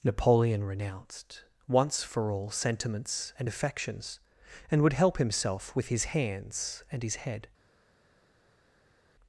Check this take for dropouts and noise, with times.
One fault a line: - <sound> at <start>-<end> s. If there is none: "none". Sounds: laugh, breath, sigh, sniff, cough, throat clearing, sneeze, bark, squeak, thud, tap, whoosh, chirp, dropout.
none